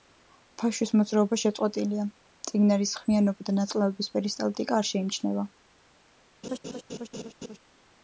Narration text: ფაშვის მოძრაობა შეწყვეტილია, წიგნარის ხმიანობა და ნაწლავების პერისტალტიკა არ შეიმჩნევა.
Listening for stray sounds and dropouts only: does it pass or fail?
fail